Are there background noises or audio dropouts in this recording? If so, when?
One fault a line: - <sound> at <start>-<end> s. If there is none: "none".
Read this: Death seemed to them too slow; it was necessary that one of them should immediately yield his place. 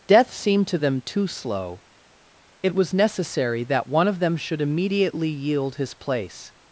none